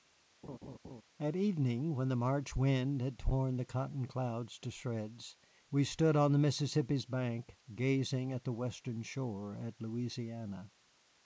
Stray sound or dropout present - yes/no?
yes